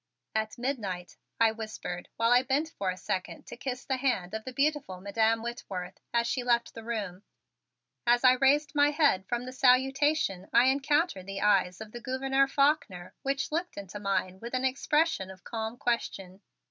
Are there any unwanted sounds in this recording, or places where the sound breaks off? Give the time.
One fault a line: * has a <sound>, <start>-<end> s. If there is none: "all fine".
all fine